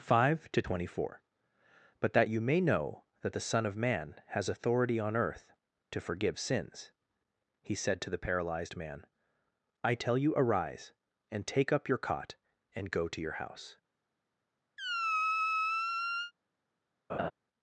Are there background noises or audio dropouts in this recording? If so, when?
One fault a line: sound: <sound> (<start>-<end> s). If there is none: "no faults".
sound: squeak (14.8-16.3 s)
sound: laugh (17.1-17.3 s)